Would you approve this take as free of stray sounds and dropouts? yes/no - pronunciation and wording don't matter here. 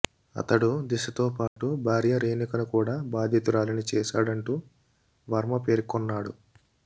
no